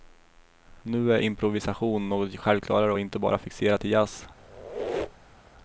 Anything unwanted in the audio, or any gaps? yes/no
yes